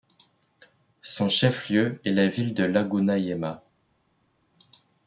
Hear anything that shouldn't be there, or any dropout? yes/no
no